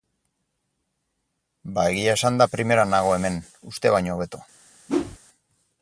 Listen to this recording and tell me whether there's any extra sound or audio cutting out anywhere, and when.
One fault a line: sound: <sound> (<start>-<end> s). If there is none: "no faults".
sound: whoosh (4.9-5.2 s)